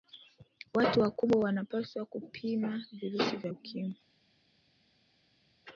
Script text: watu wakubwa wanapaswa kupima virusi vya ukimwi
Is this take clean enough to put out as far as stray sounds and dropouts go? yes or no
yes